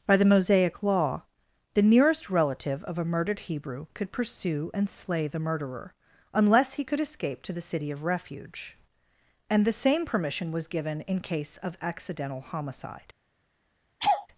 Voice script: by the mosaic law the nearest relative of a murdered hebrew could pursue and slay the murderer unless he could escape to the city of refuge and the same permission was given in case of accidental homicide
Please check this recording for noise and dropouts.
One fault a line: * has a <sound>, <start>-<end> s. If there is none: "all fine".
* has a laugh, 14.0-14.3 s